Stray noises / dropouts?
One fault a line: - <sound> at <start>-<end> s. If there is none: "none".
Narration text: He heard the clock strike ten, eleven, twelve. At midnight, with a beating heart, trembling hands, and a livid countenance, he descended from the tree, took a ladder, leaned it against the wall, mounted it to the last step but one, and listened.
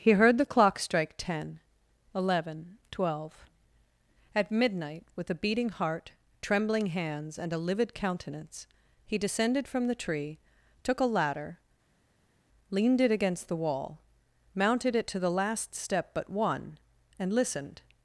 none